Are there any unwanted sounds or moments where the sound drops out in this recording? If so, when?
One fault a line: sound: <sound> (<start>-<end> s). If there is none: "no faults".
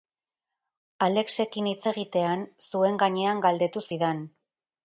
no faults